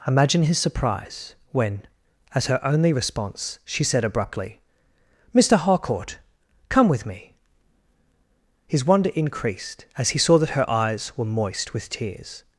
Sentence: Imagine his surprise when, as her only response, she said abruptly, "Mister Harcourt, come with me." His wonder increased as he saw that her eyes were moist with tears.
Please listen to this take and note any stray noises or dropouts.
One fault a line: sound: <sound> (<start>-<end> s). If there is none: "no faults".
no faults